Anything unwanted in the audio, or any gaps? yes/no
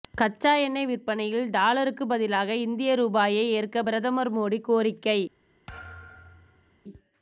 yes